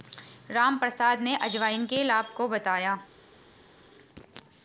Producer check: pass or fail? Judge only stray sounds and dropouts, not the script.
pass